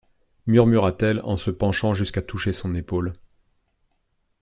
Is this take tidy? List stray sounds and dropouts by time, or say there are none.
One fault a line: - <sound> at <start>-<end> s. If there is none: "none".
none